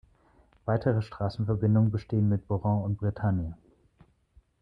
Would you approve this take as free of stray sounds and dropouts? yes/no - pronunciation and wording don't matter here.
yes